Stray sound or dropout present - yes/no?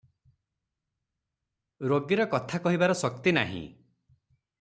no